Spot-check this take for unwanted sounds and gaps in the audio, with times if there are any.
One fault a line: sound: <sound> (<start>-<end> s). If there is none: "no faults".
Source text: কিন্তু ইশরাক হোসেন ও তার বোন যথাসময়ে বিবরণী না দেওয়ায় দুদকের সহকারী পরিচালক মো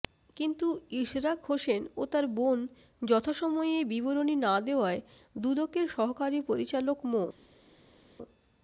no faults